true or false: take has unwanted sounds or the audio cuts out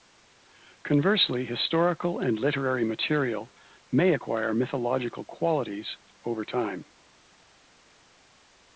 false